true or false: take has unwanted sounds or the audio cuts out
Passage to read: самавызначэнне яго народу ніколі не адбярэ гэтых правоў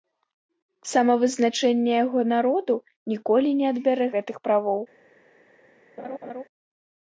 true